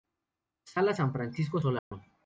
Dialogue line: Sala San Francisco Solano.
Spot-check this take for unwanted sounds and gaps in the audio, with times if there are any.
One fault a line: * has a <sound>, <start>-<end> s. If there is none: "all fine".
* has a dropout, 1.8-1.9 s